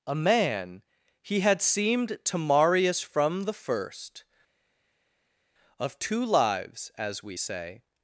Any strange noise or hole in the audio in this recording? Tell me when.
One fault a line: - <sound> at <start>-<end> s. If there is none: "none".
none